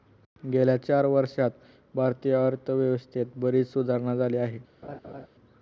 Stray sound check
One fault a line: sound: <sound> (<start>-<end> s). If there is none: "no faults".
sound: laugh (4.8-5.3 s)